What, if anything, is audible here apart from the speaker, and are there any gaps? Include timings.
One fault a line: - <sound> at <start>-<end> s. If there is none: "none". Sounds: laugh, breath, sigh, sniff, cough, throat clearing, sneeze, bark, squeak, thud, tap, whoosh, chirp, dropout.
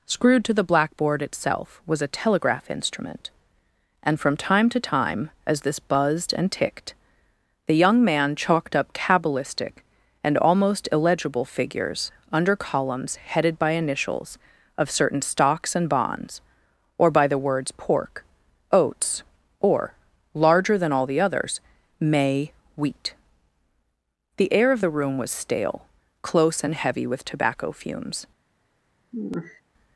- sigh at 29.1-29.6 s